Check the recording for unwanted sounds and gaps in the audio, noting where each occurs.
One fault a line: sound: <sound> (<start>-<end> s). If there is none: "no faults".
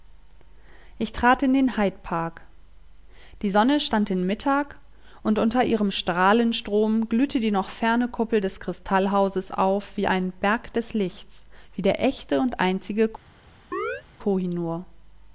sound: chirp (13.7-14.0 s)